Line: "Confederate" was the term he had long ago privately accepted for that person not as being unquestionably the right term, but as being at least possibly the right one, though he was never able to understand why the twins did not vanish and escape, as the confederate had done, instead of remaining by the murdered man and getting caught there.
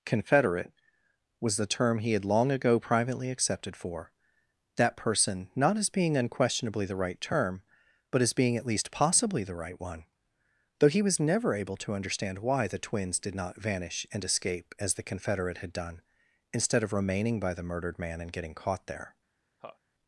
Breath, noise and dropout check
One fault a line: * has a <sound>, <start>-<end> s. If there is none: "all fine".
* has a laugh, 19.6-19.8 s